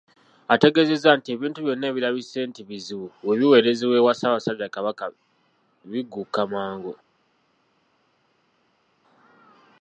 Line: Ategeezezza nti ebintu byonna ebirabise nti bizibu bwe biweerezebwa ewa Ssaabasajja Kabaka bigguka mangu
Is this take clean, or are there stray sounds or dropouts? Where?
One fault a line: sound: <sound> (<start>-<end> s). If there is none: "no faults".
no faults